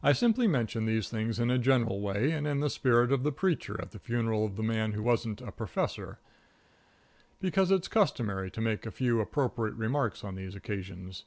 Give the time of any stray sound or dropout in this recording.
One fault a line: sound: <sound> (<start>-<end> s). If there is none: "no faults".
no faults